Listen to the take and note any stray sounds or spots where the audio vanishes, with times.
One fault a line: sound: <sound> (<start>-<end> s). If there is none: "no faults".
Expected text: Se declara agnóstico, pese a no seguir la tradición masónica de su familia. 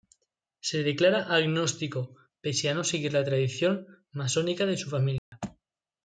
sound: dropout (5.2-5.3 s)